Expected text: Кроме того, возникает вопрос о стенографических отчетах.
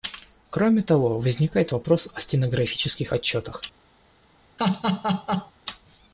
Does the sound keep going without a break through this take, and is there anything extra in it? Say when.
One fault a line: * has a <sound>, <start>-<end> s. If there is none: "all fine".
* has a laugh, 4.6-5.5 s